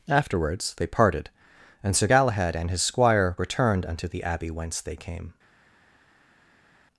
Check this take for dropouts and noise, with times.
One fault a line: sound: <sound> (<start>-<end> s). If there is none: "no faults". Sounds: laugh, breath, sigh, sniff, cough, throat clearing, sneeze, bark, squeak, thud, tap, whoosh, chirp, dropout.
no faults